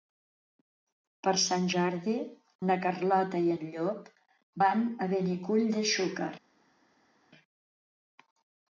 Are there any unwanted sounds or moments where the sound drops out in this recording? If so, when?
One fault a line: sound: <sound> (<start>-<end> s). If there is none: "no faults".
no faults